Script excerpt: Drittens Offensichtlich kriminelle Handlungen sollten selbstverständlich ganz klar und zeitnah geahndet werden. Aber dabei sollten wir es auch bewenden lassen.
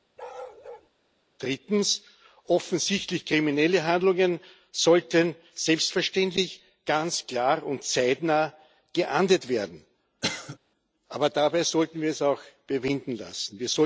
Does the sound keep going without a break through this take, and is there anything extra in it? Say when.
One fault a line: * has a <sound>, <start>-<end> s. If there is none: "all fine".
* has a bark, 0.2-0.9 s
* has a cough, 10.2-10.6 s